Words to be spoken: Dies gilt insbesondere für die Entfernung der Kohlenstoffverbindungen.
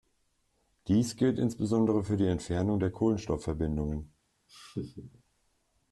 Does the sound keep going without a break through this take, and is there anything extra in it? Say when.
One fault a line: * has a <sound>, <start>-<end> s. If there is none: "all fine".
* has a laugh, 4.5-5.2 s